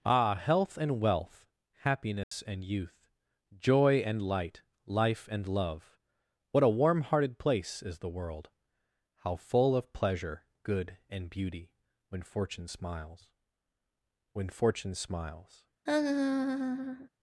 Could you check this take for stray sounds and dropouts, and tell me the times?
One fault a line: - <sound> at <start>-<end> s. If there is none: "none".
- dropout at 2.2-2.3 s
- laugh at 15.9-17.1 s